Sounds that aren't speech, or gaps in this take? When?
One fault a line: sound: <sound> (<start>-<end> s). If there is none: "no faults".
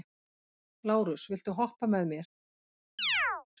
sound: chirp (3.0-3.5 s)